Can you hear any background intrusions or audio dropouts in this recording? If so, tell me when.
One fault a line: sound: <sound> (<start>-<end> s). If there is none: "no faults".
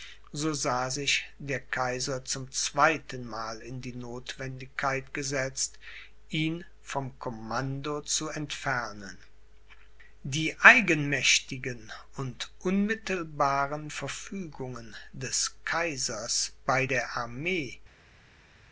no faults